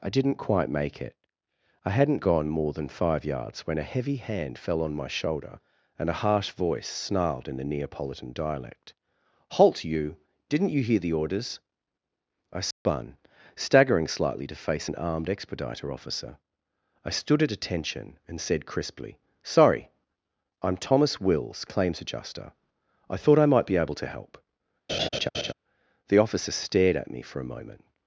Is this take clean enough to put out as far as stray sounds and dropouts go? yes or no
no